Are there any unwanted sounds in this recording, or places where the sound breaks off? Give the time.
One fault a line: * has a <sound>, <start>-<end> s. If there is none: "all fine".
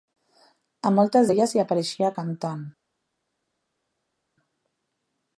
all fine